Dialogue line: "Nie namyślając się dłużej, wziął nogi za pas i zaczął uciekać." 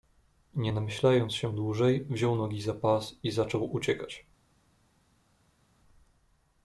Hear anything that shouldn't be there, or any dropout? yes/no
no